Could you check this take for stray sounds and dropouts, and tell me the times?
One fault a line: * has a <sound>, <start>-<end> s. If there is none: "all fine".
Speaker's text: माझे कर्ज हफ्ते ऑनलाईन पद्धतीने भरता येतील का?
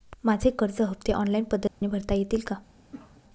* has a dropout, 1.7-1.8 s
* has a cough, 2.8-3.2 s